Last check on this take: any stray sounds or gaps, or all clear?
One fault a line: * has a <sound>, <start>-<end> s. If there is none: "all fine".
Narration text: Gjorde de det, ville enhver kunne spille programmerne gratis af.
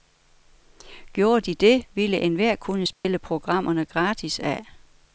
* has a dropout, 2.9-3.0 s